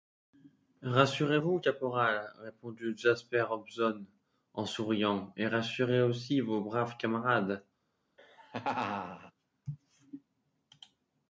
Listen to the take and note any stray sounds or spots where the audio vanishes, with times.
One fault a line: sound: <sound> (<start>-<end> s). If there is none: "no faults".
sound: laugh (8.2-9.3 s)